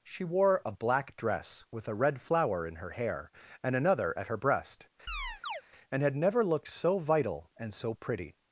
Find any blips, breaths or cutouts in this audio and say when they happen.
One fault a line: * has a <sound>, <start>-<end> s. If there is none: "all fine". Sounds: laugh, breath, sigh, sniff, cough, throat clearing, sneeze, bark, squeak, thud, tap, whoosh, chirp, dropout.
* has a chirp, 5.1-5.6 s